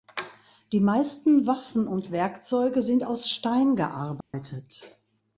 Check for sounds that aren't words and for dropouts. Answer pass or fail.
fail